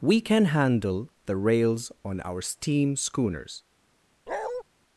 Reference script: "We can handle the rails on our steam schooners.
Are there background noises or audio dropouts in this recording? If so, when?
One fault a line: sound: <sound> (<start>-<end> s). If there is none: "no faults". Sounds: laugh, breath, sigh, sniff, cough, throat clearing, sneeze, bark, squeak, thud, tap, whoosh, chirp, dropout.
sound: bark (4.3-4.6 s)